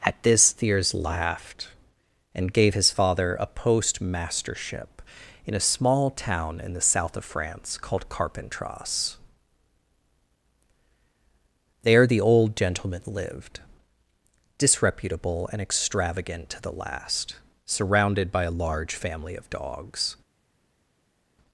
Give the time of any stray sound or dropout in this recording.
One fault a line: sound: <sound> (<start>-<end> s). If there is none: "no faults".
no faults